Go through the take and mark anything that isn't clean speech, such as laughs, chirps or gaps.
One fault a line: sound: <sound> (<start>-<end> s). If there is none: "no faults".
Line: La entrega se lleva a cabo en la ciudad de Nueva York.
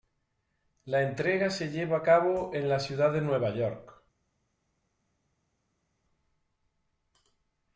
no faults